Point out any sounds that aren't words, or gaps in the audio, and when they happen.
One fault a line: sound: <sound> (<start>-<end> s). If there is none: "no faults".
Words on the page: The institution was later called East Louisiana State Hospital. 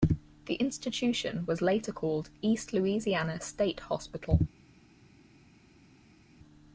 no faults